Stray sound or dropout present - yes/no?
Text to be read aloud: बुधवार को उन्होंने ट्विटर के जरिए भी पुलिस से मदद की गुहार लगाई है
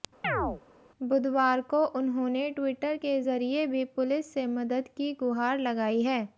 yes